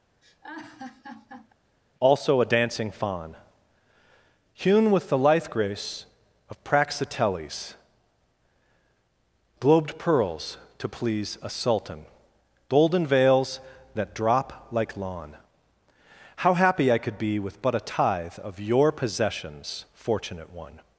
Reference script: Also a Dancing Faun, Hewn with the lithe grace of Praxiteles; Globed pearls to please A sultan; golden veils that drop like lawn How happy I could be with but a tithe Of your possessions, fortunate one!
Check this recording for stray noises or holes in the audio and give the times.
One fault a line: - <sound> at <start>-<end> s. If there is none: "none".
- laugh at 0.2-1.5 s